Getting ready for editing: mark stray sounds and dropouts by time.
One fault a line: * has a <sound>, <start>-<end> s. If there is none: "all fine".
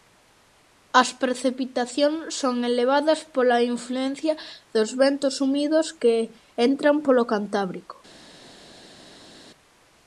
all fine